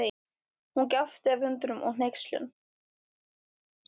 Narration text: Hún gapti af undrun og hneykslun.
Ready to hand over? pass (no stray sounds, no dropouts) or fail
pass